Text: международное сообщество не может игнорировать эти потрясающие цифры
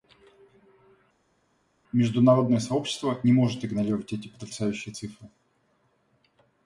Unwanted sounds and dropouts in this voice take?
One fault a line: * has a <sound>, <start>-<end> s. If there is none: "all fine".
all fine